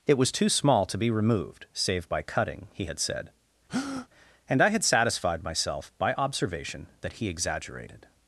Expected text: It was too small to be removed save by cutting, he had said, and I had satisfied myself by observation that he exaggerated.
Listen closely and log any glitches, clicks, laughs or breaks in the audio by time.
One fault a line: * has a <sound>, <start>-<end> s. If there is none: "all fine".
* has a breath, 3.7-4.1 s